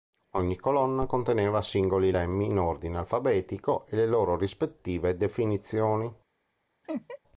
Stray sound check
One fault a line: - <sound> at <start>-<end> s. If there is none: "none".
- laugh at 6.8-7.2 s